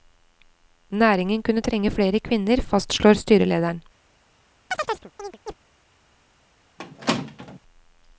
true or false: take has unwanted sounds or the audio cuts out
true